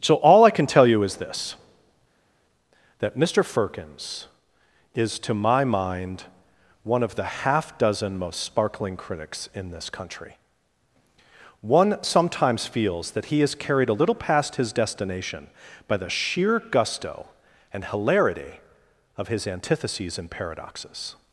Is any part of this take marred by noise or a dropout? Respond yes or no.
no